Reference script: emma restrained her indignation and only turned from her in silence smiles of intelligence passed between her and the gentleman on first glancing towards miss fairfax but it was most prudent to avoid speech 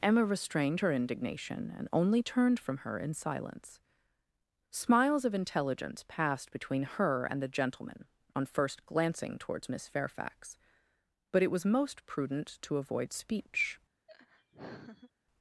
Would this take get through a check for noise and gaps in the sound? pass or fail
fail